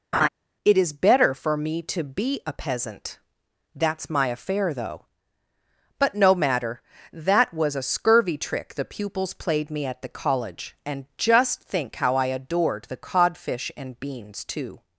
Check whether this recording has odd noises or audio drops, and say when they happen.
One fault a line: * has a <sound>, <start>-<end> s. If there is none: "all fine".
* has a laugh, 0.1-0.3 s